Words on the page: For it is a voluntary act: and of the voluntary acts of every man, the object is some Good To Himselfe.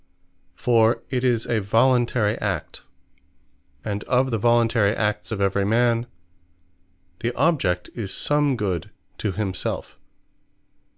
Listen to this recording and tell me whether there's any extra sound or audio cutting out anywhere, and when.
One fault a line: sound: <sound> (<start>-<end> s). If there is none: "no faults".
no faults